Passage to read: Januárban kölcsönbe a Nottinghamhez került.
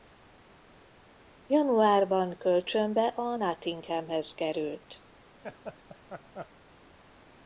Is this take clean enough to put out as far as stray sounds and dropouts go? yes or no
no